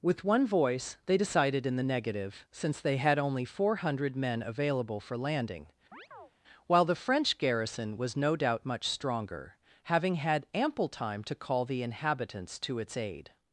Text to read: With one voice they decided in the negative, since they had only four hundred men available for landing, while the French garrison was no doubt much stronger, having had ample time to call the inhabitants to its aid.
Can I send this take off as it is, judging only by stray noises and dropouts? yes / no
no